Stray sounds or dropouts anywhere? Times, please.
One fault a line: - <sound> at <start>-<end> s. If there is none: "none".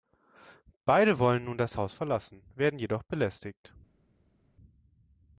none